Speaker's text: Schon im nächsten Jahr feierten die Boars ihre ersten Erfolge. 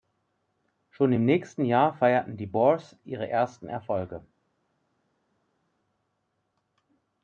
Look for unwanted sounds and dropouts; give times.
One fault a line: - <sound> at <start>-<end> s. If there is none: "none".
none